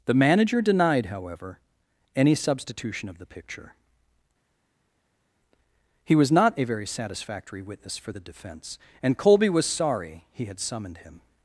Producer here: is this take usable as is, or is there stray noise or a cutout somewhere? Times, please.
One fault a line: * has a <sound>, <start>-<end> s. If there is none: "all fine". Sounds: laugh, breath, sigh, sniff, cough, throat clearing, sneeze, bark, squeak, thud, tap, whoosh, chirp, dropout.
all fine